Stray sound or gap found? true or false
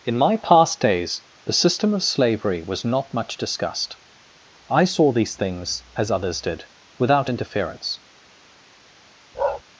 true